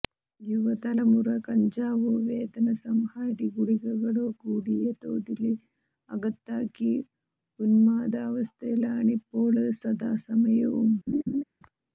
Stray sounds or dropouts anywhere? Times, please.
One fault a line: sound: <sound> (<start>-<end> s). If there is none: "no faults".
sound: laugh (11.1-11.4 s)